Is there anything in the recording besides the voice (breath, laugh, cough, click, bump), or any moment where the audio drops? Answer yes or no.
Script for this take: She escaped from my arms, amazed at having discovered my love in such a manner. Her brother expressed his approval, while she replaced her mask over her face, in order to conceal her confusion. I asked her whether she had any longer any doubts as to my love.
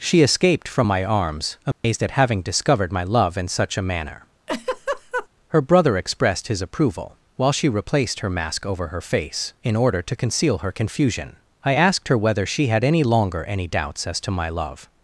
yes